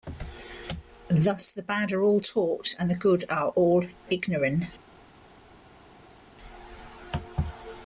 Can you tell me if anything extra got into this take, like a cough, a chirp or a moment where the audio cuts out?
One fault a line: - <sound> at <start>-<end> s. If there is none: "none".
none